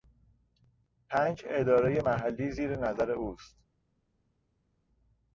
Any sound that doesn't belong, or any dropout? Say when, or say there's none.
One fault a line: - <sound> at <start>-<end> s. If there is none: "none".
none